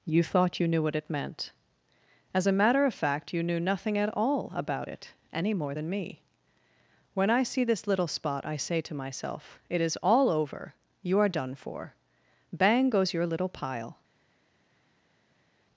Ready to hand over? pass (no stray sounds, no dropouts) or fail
pass